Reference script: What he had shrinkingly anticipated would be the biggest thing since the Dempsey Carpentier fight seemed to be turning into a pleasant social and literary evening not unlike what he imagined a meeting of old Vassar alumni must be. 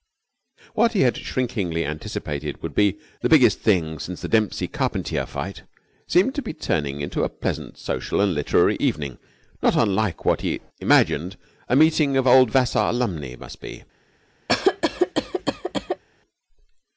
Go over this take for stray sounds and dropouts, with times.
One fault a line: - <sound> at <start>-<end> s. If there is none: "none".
- cough at 14.5-16.0 s